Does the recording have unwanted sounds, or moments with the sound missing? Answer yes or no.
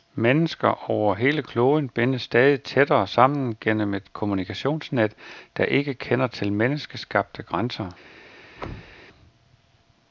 yes